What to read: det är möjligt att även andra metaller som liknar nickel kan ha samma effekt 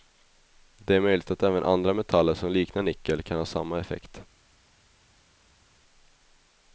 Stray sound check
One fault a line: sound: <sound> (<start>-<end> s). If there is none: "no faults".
no faults